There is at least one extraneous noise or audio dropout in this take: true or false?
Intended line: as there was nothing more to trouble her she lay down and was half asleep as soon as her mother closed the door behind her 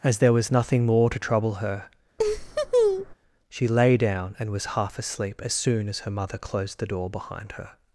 true